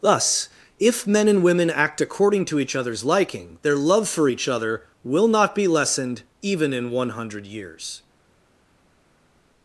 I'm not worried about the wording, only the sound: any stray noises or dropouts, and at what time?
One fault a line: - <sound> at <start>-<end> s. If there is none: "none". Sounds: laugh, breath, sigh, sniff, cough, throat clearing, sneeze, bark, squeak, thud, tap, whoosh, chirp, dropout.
none